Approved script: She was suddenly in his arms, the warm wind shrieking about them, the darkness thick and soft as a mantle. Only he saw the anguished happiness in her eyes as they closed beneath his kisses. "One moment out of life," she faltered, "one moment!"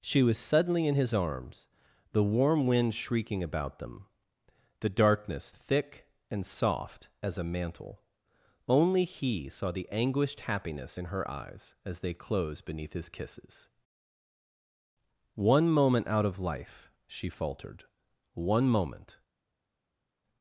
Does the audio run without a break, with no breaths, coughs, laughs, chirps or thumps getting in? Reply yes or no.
yes